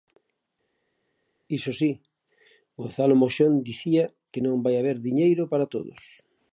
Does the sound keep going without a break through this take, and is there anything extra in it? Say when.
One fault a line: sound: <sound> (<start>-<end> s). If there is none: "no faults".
no faults